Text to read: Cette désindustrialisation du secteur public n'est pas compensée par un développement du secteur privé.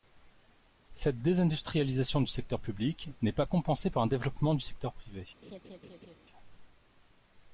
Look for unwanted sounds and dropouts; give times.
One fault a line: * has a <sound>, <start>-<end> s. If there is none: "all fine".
* has a laugh, 5.4-6.2 s